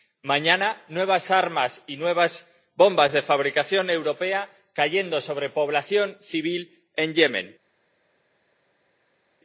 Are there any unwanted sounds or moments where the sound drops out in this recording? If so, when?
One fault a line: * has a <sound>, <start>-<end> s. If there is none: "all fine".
all fine